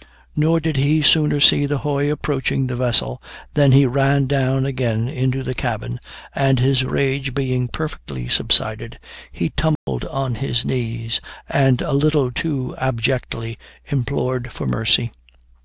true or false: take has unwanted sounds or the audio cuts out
true